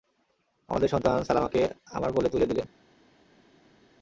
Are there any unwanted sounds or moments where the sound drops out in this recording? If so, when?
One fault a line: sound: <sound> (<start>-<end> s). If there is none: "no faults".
no faults